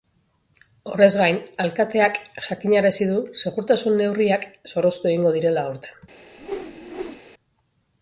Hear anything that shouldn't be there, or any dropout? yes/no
yes